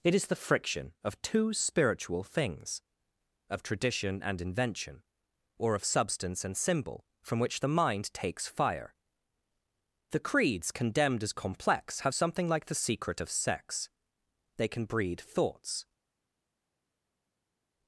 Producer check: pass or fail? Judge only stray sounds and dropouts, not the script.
pass